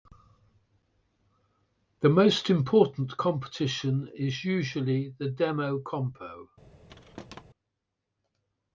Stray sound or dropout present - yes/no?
yes